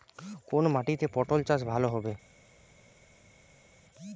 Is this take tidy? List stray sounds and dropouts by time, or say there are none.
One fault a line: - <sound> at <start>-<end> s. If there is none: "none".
none